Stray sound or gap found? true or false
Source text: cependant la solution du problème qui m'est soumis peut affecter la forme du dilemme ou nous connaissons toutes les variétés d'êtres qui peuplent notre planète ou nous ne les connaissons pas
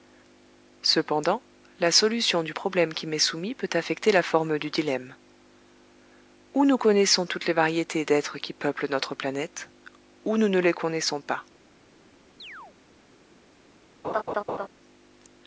true